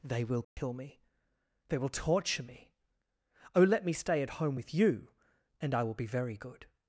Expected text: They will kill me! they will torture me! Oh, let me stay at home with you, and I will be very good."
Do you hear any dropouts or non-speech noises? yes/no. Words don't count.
yes